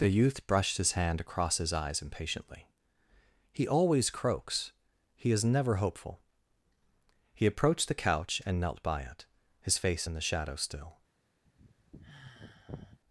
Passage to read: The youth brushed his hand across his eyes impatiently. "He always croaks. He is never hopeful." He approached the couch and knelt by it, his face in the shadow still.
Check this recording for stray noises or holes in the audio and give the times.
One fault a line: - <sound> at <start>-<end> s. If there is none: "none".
- sigh at 11.4-13.0 s